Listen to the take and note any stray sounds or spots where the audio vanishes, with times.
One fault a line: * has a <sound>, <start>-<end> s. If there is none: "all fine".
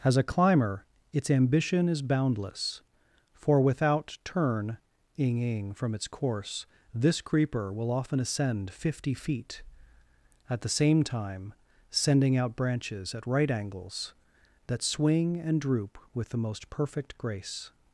all fine